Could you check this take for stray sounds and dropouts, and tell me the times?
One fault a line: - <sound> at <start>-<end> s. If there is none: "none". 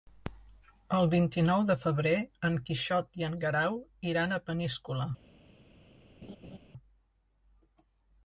- laugh at 6.2-6.6 s